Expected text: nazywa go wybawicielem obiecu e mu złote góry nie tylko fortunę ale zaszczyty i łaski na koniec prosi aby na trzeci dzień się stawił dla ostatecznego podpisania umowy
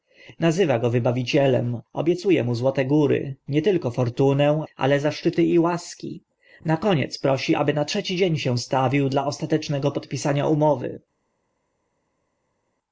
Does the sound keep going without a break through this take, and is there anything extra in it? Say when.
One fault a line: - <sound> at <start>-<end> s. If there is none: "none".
none